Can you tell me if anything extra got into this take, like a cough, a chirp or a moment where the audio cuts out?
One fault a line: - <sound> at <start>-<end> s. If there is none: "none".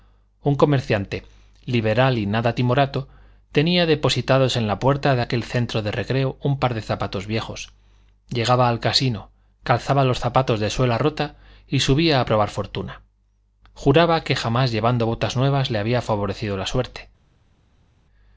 none